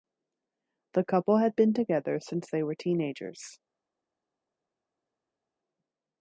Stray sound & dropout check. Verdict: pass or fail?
pass